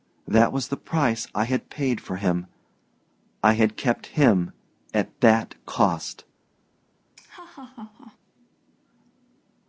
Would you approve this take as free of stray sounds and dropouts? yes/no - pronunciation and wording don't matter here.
no